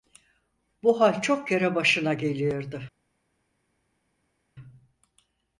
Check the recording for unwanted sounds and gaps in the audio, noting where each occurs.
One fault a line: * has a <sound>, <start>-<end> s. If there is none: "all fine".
all fine